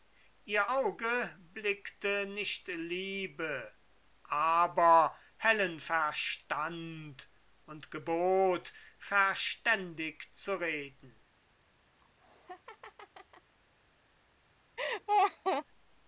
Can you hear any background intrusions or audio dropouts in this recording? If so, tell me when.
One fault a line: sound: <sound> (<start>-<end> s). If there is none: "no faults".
sound: laugh (12.0-13.5 s)
sound: laugh (14.8-15.6 s)